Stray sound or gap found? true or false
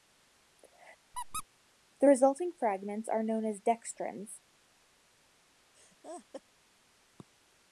true